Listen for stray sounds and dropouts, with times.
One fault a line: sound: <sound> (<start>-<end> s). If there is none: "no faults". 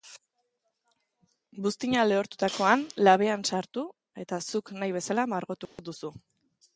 sound: dropout (5.7-5.8 s)